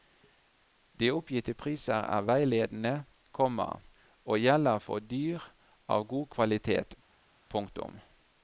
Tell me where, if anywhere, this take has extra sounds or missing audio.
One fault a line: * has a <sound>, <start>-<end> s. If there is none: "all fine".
all fine